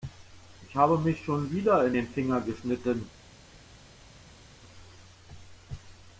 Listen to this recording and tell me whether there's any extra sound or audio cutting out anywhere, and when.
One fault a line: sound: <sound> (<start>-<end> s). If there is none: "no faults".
no faults